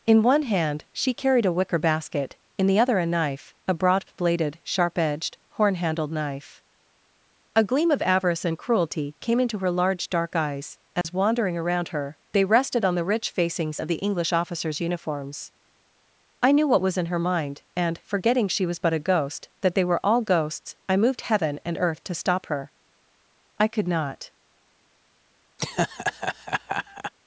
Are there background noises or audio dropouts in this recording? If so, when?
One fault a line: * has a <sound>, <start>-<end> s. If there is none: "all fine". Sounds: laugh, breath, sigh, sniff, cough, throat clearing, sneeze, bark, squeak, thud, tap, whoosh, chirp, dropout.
* has a dropout, 11.0-11.0 s
* has a laugh, 25.6-27.1 s